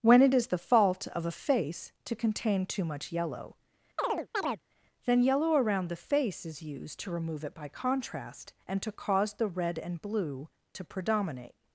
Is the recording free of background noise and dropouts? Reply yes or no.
no